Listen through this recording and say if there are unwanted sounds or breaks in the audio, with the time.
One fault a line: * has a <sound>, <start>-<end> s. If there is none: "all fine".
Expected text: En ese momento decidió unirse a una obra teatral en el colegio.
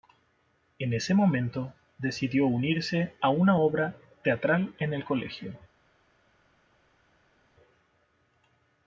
all fine